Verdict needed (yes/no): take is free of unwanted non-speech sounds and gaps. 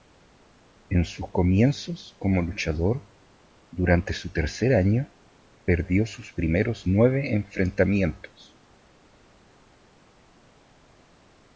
yes